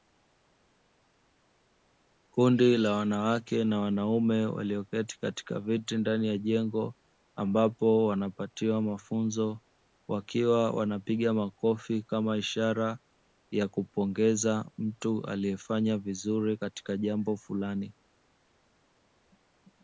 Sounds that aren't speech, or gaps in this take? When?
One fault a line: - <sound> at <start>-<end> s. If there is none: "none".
none